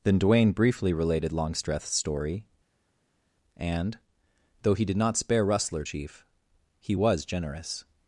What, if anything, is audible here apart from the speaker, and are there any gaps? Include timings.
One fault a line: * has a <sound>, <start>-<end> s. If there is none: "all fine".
all fine